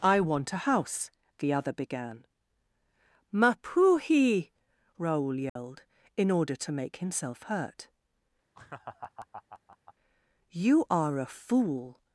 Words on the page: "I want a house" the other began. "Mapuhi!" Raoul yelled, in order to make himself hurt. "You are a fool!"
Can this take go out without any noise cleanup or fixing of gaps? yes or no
no